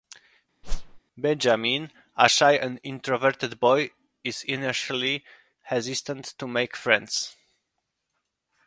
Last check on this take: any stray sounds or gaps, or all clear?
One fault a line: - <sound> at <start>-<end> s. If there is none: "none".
- whoosh at 0.6-1.0 s